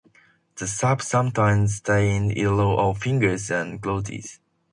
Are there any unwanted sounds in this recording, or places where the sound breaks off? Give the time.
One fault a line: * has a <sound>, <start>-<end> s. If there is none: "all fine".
all fine